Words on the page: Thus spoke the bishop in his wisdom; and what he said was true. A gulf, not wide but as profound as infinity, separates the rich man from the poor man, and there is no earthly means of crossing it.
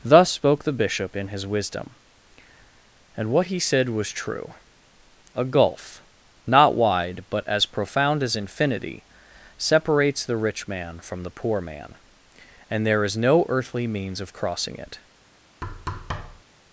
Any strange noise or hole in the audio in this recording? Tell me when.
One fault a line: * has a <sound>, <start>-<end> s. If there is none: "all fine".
* has a thud, 15.6-16.4 s